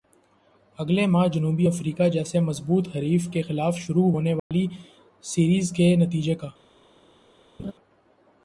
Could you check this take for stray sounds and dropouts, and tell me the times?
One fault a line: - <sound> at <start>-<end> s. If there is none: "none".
- dropout at 4.4-4.5 s
- laugh at 7.6-7.7 s